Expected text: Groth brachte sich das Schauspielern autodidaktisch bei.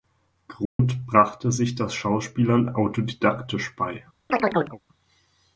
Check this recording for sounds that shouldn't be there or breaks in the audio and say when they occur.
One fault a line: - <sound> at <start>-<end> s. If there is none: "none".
- dropout at 0.7-0.8 s
- chirp at 4.3-4.8 s